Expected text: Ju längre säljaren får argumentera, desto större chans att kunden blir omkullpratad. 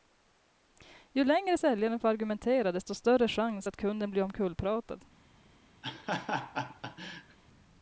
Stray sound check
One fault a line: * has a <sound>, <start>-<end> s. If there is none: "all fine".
* has a laugh, 5.8-7.4 s